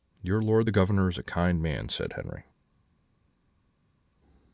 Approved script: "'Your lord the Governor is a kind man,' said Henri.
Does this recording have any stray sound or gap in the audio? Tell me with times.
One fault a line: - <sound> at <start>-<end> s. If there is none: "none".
none